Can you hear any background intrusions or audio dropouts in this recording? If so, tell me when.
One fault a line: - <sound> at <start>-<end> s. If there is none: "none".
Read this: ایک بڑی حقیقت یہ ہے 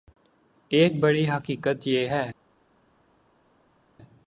none